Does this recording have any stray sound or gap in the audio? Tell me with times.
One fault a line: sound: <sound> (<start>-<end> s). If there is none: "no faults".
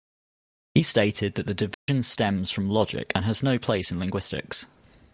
sound: dropout (1.7-1.9 s)